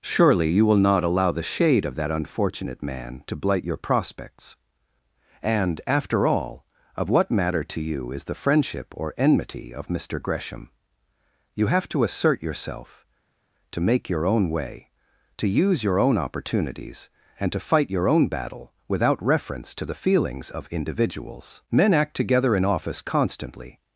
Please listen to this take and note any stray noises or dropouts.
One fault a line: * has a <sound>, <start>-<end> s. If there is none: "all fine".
all fine